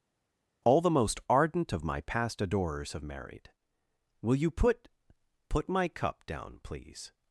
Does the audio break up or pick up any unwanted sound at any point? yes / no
no